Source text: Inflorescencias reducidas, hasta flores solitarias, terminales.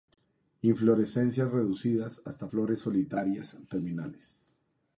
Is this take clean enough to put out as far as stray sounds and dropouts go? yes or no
yes